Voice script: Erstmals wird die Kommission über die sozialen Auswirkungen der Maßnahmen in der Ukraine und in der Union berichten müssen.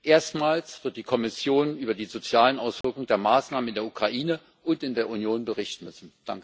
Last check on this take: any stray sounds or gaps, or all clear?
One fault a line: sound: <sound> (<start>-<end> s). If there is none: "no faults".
sound: dropout (2.8-2.8 s)